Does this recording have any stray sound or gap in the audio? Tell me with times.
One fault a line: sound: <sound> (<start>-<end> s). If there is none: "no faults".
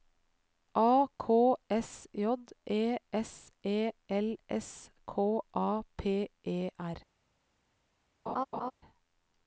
sound: laugh (8.3-8.7 s)